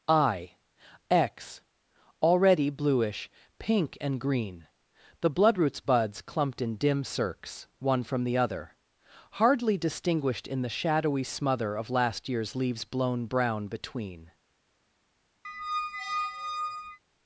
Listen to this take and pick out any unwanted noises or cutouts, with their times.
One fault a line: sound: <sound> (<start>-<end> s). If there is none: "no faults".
sound: squeak (15.4-17.0 s)